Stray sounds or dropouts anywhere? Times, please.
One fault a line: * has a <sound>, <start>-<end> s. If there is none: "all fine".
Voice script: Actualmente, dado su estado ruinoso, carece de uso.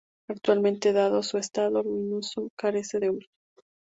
all fine